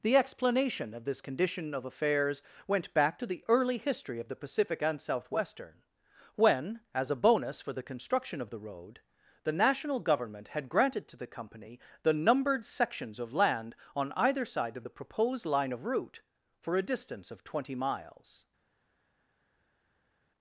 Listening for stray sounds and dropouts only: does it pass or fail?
pass